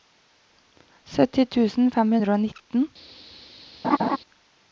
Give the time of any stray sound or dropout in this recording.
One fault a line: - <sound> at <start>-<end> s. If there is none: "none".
- laugh at 3.8-4.2 s